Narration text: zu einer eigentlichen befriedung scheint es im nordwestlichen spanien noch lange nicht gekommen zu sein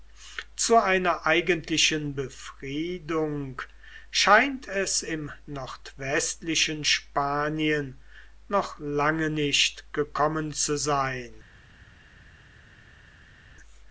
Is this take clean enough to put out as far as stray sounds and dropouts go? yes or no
yes